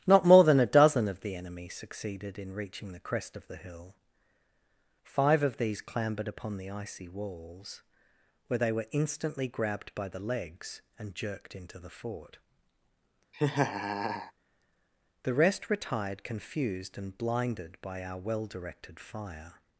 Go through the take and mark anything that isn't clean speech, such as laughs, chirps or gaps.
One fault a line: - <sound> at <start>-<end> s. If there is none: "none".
- laugh at 13.3-14.3 s